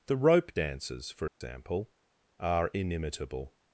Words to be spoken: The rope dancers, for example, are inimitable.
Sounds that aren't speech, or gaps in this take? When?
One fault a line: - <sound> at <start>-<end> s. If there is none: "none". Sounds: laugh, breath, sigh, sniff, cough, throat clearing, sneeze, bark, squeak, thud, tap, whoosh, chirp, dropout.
- dropout at 1.3-1.4 s